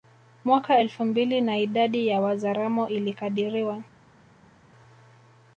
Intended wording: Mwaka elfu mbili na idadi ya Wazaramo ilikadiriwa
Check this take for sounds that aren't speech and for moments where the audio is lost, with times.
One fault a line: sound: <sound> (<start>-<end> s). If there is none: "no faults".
no faults